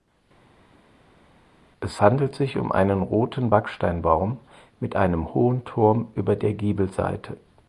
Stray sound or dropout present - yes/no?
no